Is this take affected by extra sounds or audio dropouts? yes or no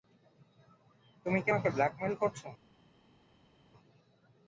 no